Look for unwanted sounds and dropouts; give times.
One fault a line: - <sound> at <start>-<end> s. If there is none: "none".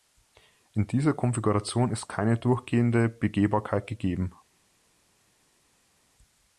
none